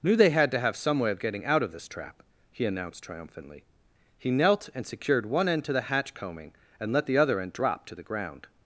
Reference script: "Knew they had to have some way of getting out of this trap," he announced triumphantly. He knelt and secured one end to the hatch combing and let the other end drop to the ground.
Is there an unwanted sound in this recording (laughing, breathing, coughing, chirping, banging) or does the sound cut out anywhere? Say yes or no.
no